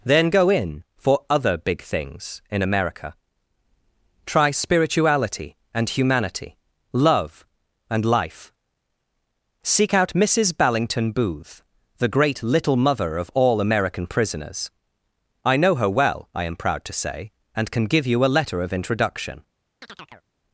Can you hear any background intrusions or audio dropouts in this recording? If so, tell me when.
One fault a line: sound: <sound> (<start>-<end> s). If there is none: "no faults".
sound: chirp (19.8-20.3 s)